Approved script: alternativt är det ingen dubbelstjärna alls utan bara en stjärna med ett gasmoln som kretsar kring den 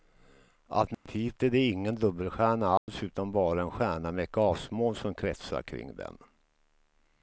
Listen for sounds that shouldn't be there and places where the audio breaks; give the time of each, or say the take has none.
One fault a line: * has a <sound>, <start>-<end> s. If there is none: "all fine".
* has a dropout, 0.9-1.1 s
* has a dropout, 2.8-2.9 s